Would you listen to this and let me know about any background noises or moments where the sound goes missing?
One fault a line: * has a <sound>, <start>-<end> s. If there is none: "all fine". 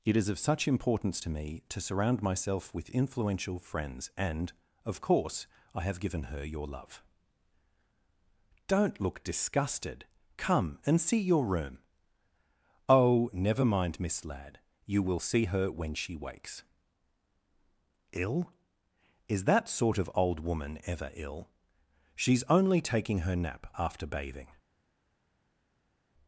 all fine